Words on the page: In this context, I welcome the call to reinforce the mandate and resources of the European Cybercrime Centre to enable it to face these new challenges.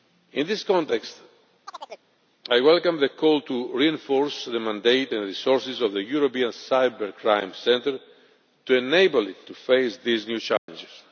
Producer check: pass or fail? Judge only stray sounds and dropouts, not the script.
fail